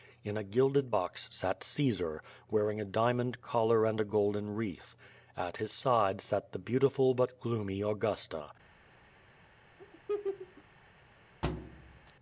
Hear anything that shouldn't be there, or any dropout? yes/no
yes